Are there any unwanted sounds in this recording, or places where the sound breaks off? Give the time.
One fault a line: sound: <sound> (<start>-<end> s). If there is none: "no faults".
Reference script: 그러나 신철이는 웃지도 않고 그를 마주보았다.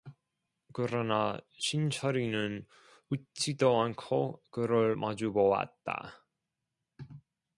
no faults